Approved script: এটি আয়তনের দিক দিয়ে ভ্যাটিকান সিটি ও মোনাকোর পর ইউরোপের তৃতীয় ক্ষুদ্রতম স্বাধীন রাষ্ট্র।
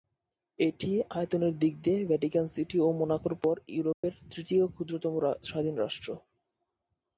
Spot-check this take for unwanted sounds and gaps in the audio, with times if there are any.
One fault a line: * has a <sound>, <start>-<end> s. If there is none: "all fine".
* has a dropout, 3.9-4.0 s